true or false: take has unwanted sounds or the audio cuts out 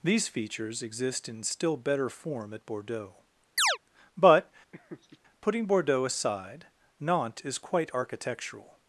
true